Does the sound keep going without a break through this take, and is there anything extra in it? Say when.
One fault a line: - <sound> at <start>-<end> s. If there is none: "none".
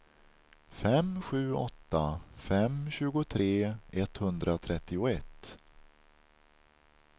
none